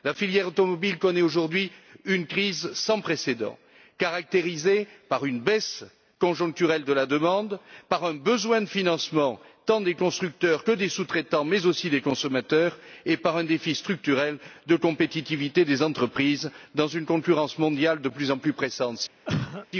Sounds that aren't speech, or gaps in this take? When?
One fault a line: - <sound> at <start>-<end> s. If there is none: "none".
- cough at 19.2-19.7 s